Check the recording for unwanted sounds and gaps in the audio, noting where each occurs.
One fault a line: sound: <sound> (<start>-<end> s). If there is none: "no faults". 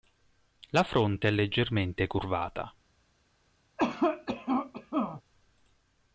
sound: cough (3.8-5.2 s)